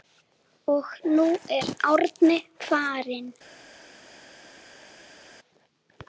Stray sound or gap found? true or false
false